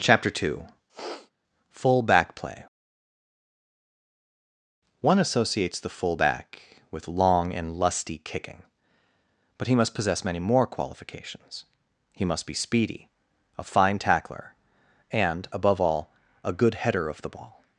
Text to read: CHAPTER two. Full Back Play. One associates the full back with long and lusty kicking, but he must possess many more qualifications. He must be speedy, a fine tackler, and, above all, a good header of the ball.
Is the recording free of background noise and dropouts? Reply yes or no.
no